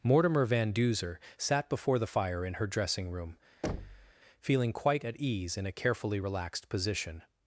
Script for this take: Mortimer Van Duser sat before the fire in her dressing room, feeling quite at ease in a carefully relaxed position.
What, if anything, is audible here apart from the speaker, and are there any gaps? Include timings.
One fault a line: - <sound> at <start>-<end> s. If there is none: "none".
- thud at 3.6-4.1 s